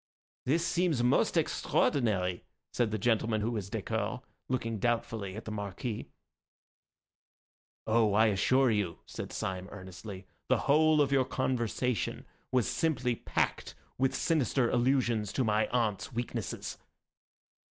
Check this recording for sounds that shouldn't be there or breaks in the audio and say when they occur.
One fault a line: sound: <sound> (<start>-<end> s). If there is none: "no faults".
no faults